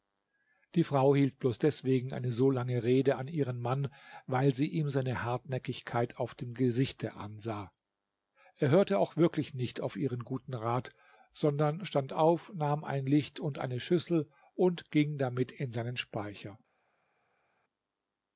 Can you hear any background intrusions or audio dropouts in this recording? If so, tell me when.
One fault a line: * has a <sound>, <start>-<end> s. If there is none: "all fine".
all fine